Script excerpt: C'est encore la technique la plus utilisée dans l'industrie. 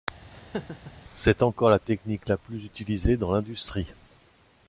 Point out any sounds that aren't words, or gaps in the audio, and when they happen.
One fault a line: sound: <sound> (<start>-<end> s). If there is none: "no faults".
sound: laugh (0.3-0.9 s)